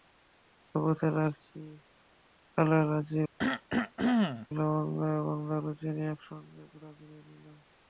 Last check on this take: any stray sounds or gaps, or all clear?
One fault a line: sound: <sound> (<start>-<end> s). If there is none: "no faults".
sound: cough (3.4-4.5 s)